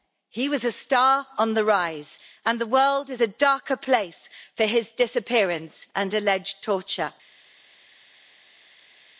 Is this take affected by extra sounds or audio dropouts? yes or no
no